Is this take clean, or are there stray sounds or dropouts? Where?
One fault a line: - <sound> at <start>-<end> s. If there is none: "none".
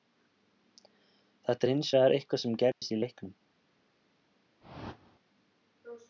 - dropout at 2.7-2.8 s
- whoosh at 4.6-5.2 s